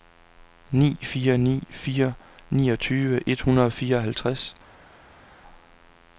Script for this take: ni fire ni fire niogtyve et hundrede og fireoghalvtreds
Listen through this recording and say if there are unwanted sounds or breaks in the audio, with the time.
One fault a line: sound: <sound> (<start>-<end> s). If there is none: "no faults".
no faults